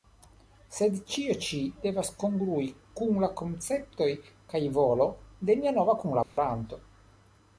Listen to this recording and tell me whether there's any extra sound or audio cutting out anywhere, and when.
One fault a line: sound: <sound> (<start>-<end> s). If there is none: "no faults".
sound: dropout (6.2-6.4 s)